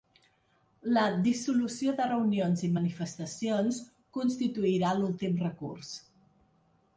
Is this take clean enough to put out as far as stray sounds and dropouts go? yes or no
yes